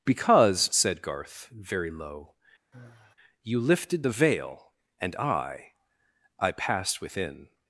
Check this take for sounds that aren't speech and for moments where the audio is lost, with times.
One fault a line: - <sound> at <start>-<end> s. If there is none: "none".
- sigh at 2.7-3.2 s